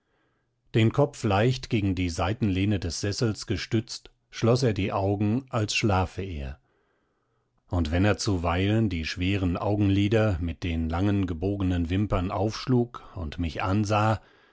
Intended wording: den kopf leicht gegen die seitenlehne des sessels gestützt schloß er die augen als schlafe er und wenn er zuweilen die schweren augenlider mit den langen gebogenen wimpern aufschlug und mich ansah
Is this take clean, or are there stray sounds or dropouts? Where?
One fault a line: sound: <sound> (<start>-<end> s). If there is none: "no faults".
no faults